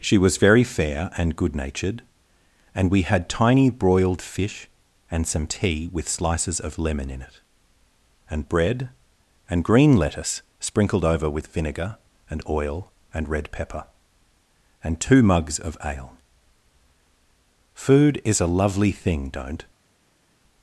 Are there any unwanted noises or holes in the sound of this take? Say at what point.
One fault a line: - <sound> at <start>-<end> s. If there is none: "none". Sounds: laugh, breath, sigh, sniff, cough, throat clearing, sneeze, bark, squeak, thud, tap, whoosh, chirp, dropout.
none